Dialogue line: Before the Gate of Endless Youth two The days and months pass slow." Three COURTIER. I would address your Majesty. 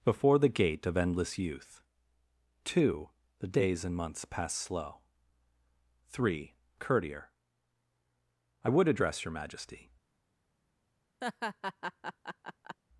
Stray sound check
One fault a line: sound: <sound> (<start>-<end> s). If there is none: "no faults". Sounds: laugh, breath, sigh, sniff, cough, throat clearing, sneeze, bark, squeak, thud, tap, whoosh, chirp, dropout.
sound: laugh (11.2-12.8 s)